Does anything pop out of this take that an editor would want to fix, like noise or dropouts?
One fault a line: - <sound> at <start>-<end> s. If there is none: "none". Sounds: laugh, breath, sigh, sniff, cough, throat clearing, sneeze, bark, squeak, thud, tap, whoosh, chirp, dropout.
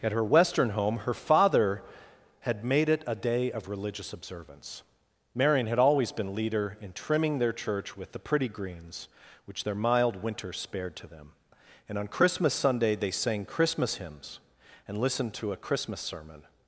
none